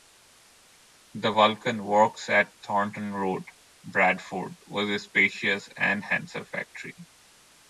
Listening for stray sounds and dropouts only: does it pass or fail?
pass